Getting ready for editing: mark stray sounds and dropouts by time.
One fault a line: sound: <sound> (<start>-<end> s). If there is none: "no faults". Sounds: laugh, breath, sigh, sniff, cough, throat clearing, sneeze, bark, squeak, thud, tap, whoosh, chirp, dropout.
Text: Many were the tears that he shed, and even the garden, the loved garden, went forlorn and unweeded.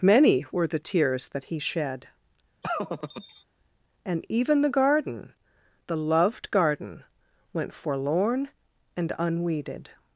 sound: laugh (2.6-3.4 s)